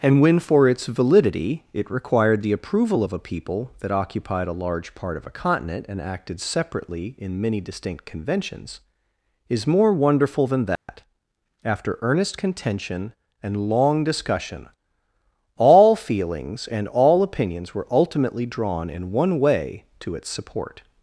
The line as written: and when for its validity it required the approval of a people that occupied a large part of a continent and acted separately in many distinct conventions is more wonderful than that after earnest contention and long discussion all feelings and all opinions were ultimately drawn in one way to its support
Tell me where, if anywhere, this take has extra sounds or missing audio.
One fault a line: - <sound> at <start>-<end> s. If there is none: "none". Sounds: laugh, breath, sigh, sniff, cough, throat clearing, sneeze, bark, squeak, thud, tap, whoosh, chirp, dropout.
- dropout at 10.8-10.9 s